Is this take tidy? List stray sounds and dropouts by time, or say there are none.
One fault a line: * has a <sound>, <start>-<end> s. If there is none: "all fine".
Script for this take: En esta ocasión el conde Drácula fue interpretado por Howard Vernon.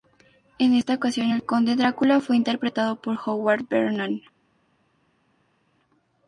all fine